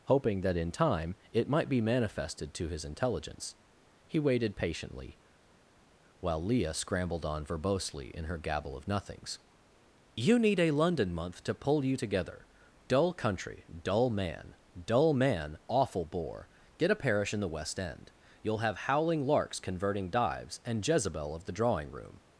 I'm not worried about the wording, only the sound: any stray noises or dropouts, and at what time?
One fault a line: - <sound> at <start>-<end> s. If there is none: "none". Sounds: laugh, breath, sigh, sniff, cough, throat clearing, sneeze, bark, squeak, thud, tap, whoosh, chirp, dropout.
none